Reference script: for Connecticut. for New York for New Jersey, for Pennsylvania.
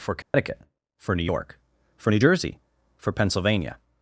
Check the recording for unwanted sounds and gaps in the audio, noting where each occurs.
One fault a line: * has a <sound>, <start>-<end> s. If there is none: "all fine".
* has a dropout, 0.2-0.3 s